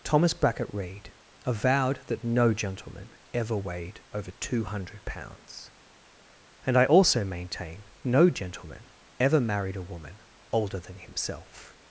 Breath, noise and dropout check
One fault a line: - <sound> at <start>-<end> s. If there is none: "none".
none